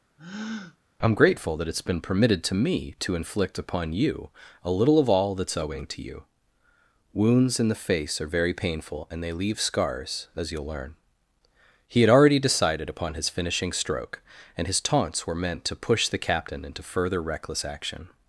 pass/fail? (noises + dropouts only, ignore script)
fail